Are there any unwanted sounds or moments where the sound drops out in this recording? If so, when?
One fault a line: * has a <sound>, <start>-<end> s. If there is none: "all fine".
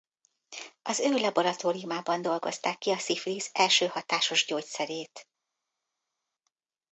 all fine